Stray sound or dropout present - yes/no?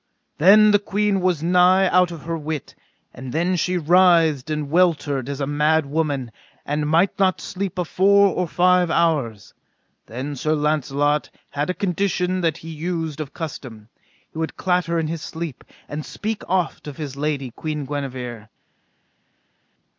no